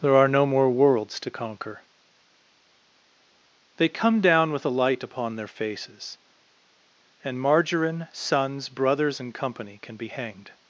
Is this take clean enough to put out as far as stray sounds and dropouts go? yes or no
yes